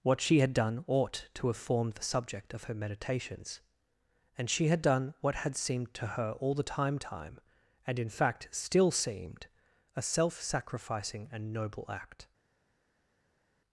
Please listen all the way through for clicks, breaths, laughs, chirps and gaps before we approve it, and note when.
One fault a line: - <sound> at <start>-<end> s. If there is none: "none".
none